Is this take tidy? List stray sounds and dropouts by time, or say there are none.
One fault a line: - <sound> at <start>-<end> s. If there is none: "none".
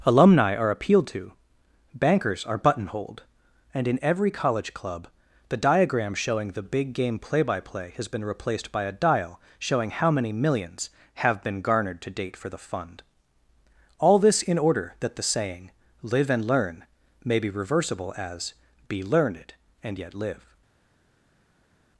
none